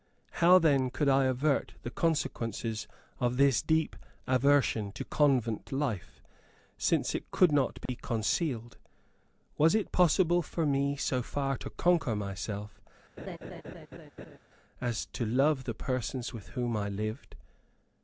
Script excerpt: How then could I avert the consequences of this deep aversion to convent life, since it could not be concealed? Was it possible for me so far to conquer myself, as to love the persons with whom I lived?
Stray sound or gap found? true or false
true